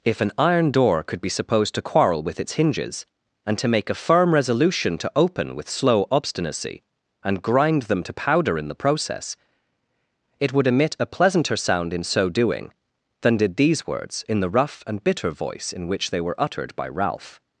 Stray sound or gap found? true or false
false